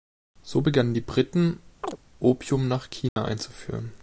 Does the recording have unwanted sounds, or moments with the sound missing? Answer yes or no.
yes